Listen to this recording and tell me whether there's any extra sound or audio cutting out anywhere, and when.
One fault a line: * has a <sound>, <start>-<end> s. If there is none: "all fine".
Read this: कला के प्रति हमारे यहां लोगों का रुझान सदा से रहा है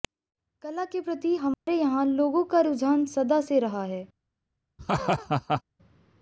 * has a dropout, 1.5-1.7 s
* has a laugh, 4.8-5.6 s